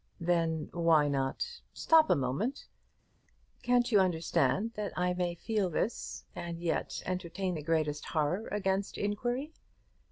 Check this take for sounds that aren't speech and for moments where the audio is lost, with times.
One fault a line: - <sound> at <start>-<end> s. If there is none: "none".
none